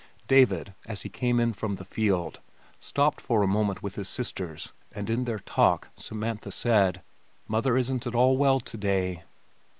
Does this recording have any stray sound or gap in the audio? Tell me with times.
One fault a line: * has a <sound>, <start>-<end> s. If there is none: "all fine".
all fine